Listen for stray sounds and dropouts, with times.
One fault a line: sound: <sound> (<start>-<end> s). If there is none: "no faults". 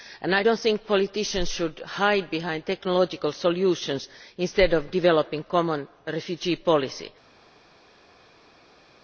no faults